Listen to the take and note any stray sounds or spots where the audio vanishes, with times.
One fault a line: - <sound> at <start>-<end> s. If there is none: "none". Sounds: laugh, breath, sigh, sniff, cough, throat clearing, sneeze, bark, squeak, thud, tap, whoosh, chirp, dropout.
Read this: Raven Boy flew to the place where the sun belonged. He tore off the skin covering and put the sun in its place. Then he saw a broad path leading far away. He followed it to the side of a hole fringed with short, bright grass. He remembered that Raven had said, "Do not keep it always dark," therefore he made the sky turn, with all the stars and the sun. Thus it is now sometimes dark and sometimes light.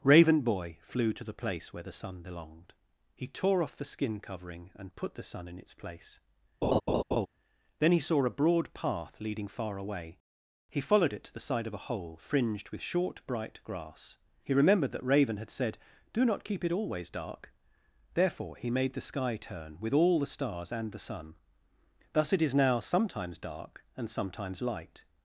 - laugh at 6.6-7.3 s